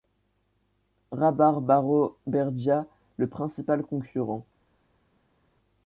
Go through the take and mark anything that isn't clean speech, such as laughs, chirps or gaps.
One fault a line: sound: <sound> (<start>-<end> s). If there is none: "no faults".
no faults